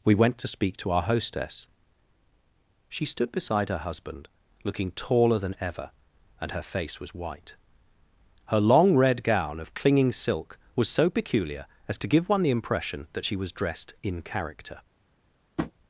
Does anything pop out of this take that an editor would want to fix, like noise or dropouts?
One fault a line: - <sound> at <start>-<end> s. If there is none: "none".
- tap at 15.6-15.7 s